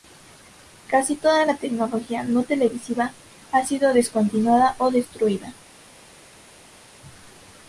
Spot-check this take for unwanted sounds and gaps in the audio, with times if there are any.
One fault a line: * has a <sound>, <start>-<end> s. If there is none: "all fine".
all fine